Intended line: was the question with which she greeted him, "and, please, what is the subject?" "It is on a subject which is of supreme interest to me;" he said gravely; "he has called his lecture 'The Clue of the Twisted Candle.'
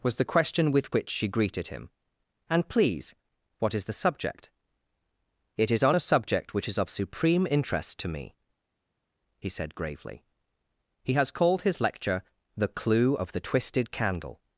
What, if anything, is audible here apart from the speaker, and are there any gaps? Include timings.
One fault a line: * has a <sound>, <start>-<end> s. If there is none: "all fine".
all fine